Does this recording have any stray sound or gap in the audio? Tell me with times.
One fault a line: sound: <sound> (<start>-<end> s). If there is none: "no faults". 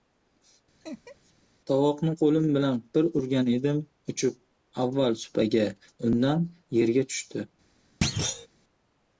sound: laugh (0.8-1.3 s)
sound: thud (8.0-8.5 s)